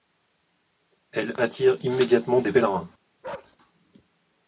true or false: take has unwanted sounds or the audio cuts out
true